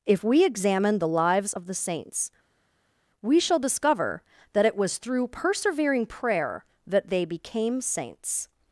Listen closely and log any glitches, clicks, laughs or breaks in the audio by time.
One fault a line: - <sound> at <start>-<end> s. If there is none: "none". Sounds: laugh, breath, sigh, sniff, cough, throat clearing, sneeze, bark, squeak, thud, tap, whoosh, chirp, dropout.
none